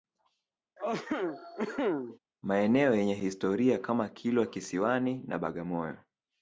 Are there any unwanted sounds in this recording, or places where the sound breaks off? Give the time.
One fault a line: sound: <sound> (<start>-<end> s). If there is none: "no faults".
sound: cough (0.8-2.2 s)